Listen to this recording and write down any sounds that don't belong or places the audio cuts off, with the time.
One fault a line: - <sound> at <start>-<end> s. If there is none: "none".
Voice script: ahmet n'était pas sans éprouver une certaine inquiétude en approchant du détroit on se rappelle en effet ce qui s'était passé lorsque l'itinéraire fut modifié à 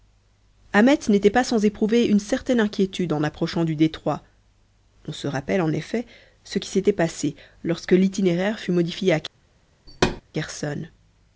- thud at 9.9-10.2 s